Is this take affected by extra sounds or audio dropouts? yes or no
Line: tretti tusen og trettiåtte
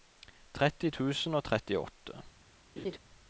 yes